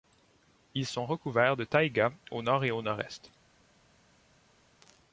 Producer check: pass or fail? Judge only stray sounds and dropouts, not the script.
pass